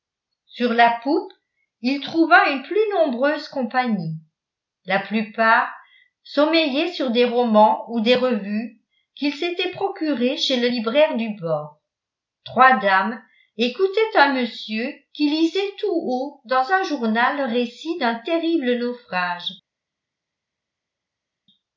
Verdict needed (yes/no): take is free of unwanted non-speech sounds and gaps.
yes